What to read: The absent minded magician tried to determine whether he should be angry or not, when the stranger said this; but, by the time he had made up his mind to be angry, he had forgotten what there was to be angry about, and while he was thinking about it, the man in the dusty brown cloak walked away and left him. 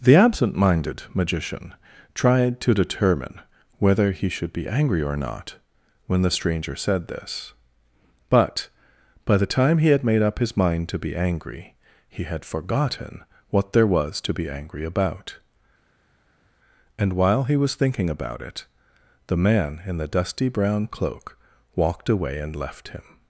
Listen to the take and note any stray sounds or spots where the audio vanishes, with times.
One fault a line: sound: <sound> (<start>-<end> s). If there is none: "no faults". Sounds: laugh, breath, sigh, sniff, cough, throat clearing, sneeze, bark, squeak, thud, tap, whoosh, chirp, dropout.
no faults